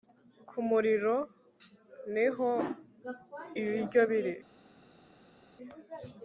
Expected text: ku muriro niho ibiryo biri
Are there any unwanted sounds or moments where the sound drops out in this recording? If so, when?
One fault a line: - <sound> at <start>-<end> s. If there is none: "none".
none